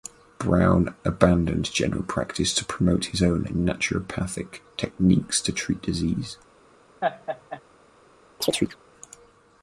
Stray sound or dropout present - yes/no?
yes